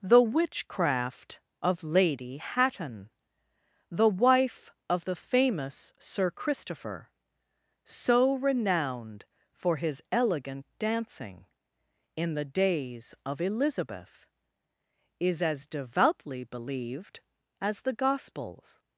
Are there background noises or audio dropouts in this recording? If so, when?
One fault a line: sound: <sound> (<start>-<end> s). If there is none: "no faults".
no faults